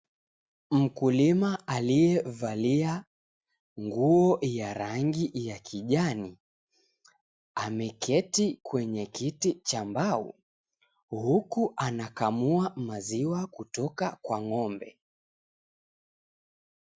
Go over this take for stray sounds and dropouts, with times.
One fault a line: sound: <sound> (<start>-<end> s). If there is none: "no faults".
no faults